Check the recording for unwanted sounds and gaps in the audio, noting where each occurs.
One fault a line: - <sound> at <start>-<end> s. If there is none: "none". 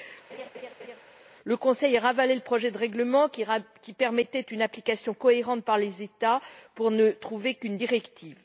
- laugh at 0.3-1.0 s